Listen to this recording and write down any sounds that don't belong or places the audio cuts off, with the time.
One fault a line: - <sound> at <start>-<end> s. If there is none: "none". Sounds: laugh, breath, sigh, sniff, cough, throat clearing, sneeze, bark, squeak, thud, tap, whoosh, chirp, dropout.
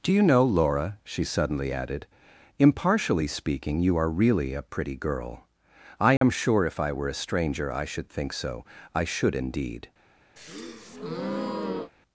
- dropout at 6.2-6.2 s
- breath at 10.4-11.9 s